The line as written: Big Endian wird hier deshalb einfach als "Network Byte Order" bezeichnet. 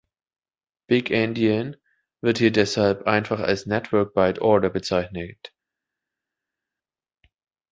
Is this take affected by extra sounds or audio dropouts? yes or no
no